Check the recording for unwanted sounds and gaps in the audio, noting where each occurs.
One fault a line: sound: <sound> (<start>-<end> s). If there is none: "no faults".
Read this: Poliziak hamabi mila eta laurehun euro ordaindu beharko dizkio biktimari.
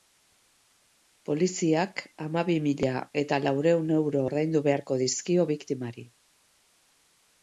no faults